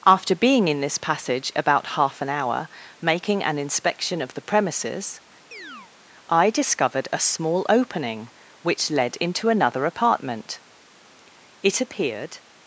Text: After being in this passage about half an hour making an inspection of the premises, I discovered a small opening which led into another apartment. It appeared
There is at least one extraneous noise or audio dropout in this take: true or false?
true